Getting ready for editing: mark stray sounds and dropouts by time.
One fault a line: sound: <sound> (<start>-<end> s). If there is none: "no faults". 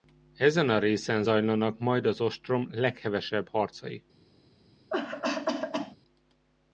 sound: cough (4.9-6.0 s)